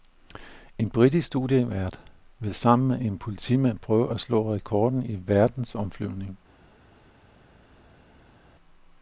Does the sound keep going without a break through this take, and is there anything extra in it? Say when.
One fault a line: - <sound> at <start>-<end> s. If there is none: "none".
none